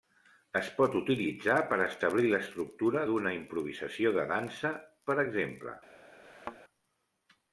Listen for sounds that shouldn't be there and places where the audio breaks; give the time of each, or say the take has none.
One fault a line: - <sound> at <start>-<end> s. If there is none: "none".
- thud at 6.2-6.6 s